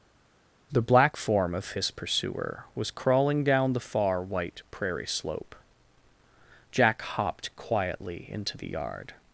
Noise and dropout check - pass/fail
pass